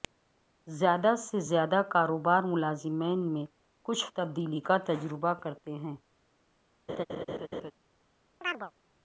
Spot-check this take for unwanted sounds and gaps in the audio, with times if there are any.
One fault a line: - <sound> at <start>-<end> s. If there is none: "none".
- laugh at 6.9-7.7 s
- chirp at 8.4-8.7 s